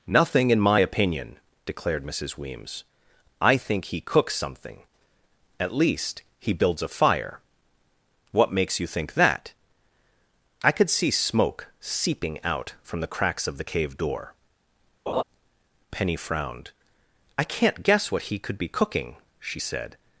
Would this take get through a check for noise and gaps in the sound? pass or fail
fail